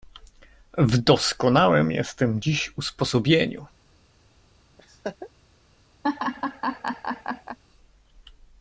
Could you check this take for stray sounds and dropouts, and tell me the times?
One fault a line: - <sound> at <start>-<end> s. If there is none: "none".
- laugh at 4.8-5.3 s
- laugh at 6.0-7.6 s